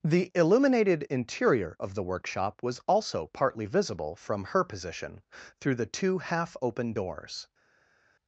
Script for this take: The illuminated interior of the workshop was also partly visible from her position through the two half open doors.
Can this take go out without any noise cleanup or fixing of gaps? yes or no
yes